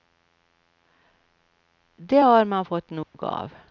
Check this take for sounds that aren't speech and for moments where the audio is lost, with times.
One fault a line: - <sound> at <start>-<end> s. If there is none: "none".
- dropout at 3.0-3.1 s